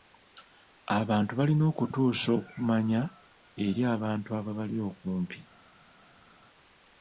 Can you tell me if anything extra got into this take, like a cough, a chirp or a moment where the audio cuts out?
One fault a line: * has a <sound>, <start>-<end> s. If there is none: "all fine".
all fine